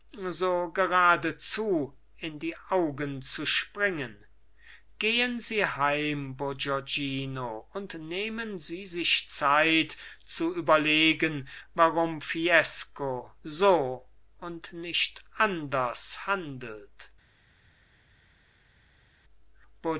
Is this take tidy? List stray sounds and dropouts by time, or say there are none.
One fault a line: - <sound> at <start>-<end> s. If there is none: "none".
none